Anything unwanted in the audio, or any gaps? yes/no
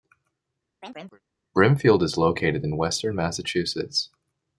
yes